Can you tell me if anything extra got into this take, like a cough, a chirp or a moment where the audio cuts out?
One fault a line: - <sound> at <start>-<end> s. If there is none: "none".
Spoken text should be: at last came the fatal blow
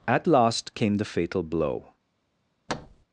- thud at 2.7-3.0 s